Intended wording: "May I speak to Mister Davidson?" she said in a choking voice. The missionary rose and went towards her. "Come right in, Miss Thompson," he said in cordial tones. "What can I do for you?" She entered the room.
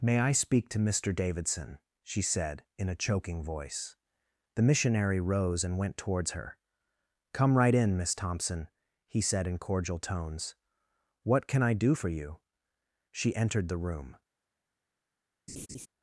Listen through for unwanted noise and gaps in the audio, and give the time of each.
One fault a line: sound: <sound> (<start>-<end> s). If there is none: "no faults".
sound: laugh (15.5-15.9 s)